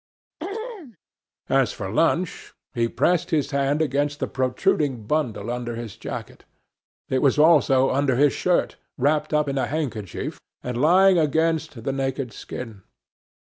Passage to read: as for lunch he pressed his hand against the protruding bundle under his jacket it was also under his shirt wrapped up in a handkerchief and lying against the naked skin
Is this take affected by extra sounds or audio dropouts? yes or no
yes